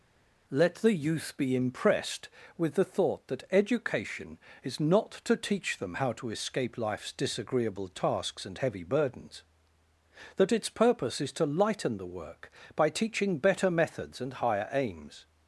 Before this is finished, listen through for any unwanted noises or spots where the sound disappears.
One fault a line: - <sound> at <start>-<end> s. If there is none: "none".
none